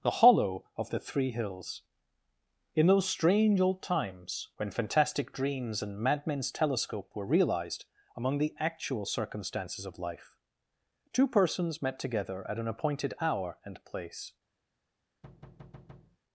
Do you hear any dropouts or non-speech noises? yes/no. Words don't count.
yes